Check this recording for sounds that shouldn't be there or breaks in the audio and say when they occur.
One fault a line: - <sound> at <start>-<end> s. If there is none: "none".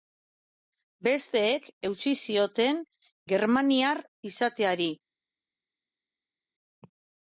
none